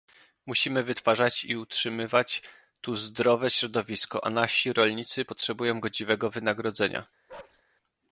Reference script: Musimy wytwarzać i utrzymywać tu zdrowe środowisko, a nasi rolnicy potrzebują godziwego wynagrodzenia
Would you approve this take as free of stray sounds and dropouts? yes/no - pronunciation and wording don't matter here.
no